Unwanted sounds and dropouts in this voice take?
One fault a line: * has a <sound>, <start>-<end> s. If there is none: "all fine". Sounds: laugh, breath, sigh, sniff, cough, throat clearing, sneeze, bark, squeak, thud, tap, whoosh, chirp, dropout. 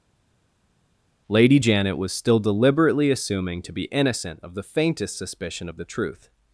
all fine